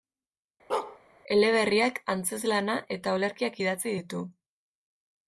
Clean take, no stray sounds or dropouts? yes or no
no